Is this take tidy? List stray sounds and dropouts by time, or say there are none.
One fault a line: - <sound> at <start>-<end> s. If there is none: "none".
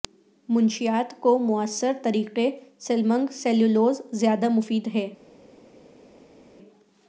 none